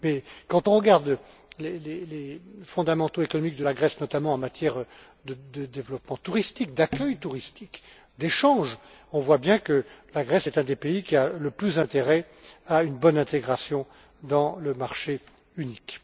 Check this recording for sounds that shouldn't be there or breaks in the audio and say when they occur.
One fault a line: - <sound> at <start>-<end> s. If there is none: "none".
none